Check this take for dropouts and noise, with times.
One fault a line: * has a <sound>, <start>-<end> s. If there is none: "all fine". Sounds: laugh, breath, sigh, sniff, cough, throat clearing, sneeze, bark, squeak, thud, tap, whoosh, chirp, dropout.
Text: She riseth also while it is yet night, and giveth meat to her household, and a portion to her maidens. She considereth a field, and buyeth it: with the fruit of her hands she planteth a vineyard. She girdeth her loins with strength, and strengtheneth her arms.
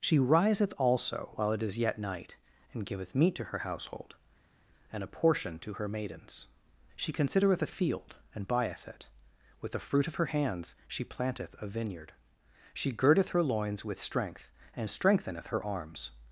all fine